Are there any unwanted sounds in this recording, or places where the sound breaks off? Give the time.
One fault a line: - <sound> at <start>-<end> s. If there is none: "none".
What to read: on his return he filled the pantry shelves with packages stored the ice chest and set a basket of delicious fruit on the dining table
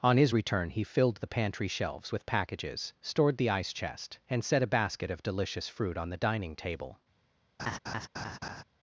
- laugh at 7.6-8.6 s